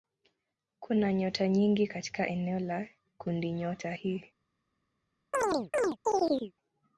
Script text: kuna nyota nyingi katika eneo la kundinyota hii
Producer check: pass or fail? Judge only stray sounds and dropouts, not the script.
fail